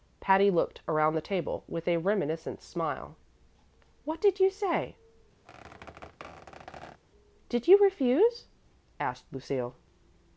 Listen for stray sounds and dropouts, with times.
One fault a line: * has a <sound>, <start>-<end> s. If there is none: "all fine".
* has a squeak, 5.4-7.0 s